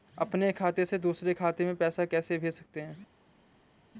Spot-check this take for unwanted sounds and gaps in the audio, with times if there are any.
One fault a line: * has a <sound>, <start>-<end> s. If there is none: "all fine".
all fine